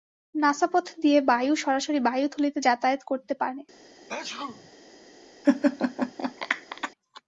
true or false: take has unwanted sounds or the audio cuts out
true